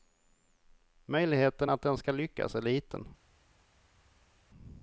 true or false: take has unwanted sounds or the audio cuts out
false